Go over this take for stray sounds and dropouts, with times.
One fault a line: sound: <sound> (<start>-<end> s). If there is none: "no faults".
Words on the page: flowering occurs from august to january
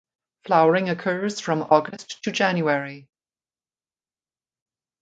no faults